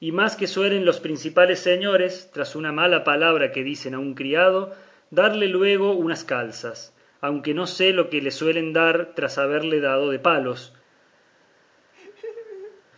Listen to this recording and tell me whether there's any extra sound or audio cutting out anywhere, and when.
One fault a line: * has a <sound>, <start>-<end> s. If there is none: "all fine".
* has a laugh, 11.9-12.8 s